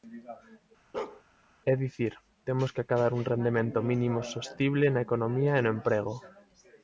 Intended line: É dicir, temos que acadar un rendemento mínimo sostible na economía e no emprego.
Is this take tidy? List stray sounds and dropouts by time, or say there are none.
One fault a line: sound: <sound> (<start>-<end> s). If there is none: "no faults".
sound: bark (0.9-1.2 s)